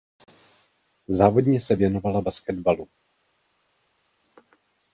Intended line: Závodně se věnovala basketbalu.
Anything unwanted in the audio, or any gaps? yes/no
no